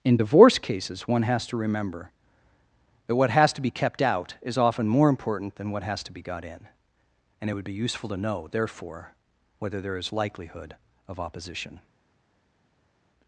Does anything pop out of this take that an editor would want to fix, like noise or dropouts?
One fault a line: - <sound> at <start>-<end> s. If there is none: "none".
none